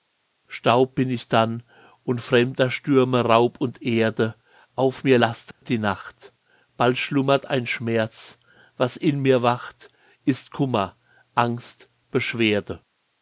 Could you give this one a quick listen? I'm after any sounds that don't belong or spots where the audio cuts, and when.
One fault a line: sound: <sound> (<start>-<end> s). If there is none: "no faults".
sound: dropout (5.5-5.6 s)